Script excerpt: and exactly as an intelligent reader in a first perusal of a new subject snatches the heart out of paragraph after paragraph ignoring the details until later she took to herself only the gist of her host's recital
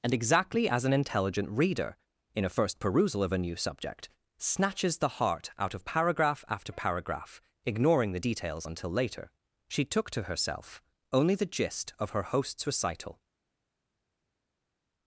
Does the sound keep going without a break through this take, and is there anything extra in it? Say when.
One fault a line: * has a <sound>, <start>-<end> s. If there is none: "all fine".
all fine